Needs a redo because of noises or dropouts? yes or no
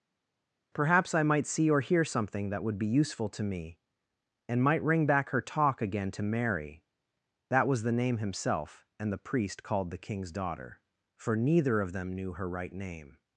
no